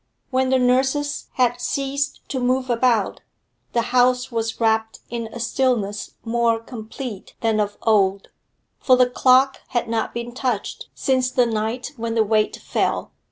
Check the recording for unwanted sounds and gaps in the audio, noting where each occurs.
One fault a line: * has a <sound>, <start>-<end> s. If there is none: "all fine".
all fine